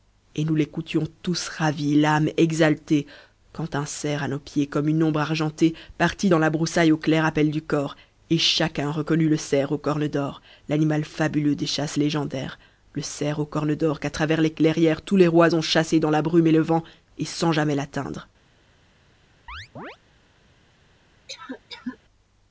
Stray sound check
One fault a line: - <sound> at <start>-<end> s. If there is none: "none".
- chirp at 19.5-20.0 s
- cough at 21.3-22.0 s